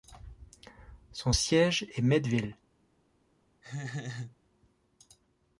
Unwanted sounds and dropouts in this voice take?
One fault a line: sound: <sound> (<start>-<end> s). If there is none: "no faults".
sound: laugh (3.6-4.4 s)